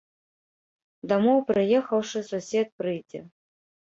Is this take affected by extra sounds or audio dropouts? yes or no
no